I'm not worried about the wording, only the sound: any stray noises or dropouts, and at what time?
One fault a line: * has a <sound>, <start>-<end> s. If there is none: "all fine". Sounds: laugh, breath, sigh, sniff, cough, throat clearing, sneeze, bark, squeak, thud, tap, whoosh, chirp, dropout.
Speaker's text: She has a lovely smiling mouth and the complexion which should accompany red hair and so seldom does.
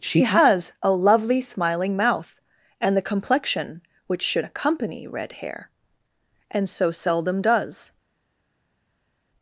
all fine